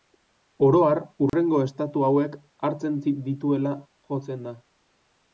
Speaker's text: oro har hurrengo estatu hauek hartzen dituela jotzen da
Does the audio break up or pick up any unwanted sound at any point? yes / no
yes